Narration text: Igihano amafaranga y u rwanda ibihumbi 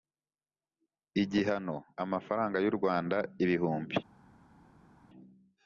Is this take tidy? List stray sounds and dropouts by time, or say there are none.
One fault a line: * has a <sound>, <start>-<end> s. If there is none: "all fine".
all fine